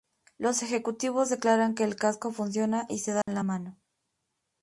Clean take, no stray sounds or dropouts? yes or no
no